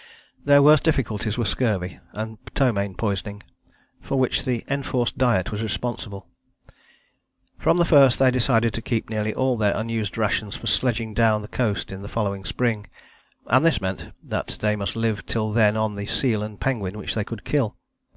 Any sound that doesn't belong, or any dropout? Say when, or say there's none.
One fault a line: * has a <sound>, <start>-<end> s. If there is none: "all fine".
all fine